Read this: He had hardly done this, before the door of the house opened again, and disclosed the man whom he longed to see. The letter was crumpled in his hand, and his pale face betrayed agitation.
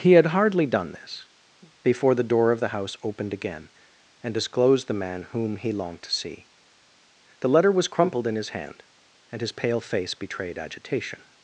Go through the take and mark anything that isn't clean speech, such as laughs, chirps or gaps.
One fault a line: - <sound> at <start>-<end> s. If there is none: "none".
none